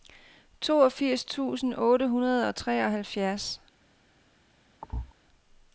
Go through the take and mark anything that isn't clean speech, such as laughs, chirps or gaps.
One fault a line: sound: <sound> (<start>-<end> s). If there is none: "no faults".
sound: thud (4.8-5.1 s)